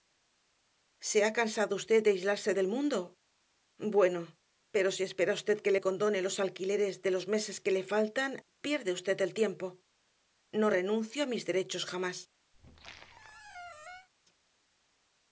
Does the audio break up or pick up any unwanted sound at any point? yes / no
yes